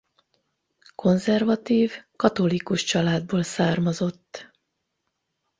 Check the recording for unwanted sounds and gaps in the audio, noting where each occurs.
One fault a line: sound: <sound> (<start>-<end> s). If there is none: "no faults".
no faults